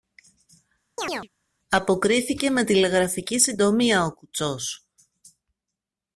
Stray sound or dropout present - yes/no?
yes